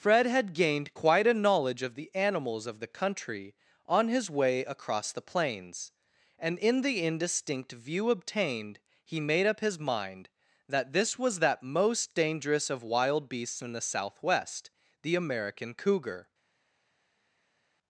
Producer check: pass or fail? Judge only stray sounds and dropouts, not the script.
pass